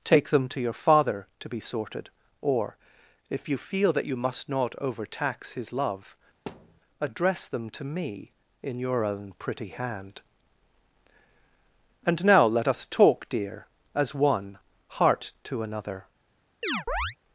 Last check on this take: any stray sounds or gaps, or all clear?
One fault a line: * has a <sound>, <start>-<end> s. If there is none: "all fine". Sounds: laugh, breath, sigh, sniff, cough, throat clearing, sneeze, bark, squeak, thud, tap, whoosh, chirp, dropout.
* has a thud, 6.5-6.8 s
* has a chirp, 16.6-17.2 s